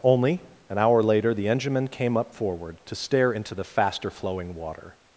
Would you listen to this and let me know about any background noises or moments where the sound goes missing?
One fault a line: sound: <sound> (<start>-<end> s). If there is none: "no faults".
no faults